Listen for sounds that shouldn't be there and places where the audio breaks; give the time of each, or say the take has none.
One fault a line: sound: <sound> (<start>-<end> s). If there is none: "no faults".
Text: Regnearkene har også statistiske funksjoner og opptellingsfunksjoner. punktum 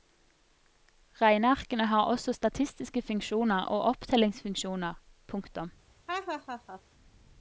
sound: laugh (6.1-6.8 s)